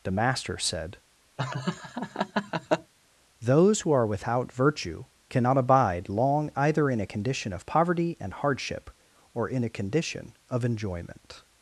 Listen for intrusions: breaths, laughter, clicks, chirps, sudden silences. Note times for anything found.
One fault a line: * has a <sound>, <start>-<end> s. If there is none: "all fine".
* has a laugh, 1.4-2.9 s